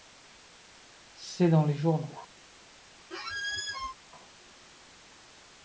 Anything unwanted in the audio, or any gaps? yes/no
yes